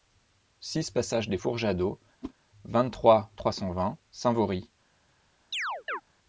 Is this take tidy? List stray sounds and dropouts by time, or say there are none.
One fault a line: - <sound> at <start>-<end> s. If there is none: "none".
- whoosh at 2.2-2.3 s
- chirp at 5.5-6.0 s